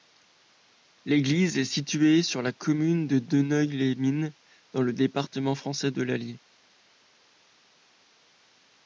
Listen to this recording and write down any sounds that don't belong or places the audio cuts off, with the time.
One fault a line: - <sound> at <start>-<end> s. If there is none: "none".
none